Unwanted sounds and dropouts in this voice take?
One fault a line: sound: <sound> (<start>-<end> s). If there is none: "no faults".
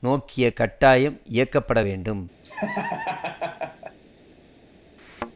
sound: laugh (2.4-4.0 s)
sound: thud (5.0-5.3 s)